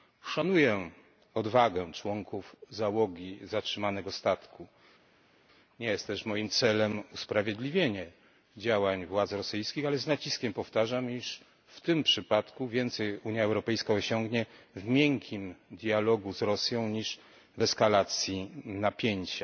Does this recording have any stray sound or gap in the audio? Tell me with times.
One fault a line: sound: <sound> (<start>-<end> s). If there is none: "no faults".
no faults